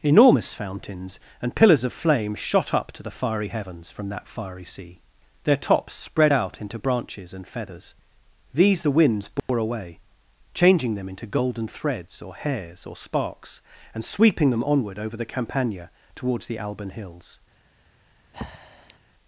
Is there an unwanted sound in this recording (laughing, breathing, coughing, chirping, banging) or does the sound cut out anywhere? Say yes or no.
yes